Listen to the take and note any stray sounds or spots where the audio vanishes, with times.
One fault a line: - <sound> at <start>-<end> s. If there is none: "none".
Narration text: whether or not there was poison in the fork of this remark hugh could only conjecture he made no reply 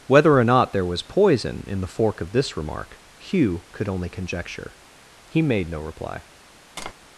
- tap at 6.8-6.9 s